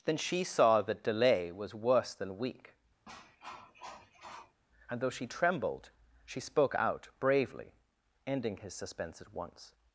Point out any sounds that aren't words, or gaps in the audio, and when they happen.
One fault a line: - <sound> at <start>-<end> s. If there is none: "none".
- cough at 3.1-4.6 s